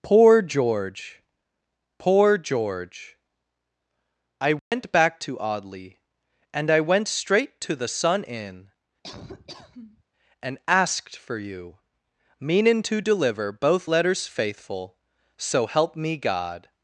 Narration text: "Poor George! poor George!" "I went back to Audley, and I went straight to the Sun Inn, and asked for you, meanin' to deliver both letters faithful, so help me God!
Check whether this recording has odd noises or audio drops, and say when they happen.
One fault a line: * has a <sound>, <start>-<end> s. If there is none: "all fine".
* has a dropout, 4.6-4.7 s
* has a laugh, 9.0-10.0 s